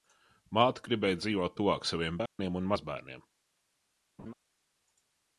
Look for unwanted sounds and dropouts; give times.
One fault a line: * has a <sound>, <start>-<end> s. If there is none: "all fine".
* has a dropout, 2.3-2.4 s
* has a laugh, 4.2-4.3 s